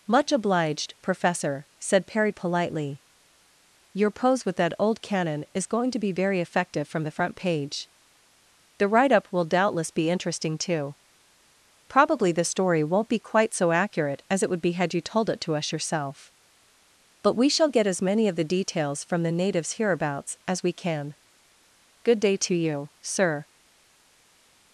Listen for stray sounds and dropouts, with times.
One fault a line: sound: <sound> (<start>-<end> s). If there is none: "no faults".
no faults